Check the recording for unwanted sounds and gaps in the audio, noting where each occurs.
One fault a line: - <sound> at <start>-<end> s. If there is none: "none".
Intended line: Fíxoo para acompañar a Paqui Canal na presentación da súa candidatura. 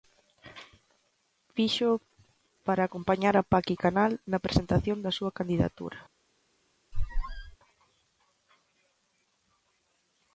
- squeak at 6.9-7.6 s